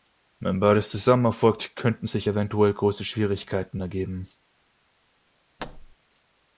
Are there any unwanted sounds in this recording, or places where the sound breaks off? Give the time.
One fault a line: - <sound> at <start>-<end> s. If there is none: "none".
- thud at 5.6-6.0 s